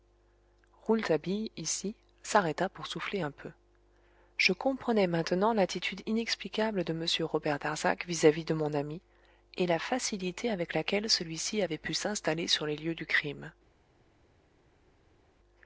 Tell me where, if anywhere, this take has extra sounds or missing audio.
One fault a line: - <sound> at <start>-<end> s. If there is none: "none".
none